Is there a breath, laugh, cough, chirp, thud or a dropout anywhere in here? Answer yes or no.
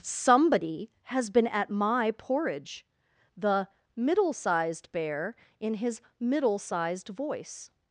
no